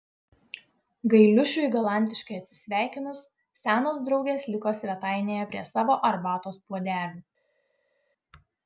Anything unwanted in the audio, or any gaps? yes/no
no